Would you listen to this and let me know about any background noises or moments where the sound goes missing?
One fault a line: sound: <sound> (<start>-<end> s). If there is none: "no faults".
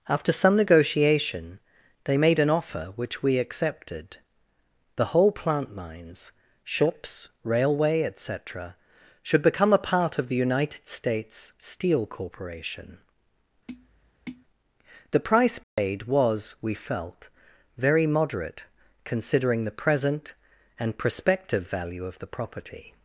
sound: tap (13.7-14.5 s)
sound: dropout (15.6-15.8 s)